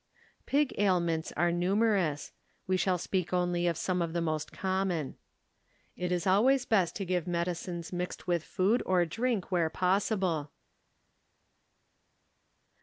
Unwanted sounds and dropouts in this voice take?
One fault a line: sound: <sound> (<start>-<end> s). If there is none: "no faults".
no faults